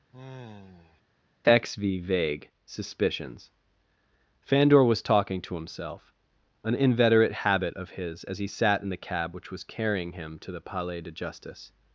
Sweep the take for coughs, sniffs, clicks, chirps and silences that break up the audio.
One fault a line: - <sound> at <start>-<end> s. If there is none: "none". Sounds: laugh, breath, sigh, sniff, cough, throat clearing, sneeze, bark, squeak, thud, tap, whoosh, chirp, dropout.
- sigh at 0.1-1.0 s